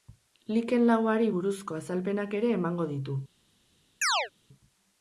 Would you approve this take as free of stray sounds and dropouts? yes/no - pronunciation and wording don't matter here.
no